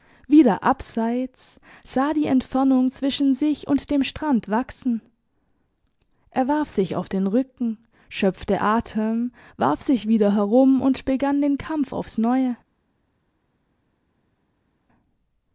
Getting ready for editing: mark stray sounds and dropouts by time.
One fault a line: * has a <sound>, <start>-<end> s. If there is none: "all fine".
all fine